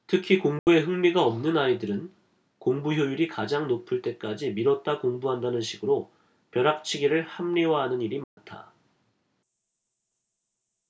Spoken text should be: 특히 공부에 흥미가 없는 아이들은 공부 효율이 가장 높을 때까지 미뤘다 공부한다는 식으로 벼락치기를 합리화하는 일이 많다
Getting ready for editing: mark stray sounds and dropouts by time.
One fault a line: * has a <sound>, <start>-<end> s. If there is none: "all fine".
* has a dropout, 0.6-0.7 s
* has a dropout, 8.2-8.4 s